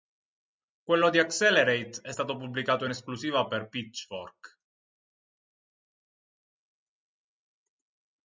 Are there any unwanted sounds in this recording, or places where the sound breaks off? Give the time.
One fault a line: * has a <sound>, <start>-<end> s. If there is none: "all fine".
all fine